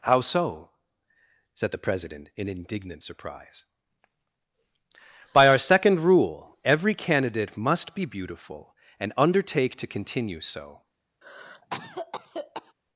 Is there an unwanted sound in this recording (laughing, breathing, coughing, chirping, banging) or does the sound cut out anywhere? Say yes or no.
yes